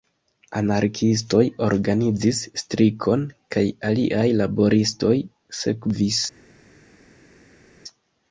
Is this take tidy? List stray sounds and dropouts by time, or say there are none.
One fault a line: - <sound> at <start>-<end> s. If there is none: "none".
none